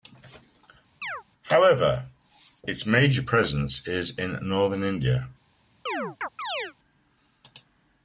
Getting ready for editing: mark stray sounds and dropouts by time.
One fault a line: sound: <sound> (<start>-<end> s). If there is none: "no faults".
sound: chirp (1.0-1.2 s)
sound: chirp (5.9-6.7 s)